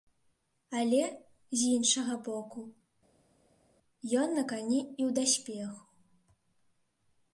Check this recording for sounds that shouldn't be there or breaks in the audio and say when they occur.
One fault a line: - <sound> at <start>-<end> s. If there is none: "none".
none